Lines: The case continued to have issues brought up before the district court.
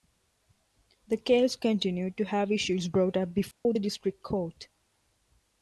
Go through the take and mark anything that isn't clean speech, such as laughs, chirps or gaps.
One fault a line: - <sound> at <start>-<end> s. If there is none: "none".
- dropout at 3.5-3.7 s